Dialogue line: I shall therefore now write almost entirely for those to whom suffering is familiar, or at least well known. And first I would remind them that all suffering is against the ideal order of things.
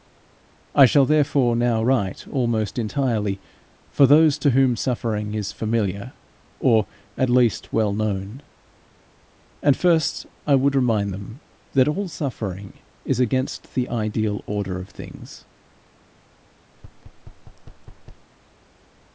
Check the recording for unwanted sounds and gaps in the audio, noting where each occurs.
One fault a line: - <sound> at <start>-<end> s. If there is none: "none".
- thud at 16.7-18.3 s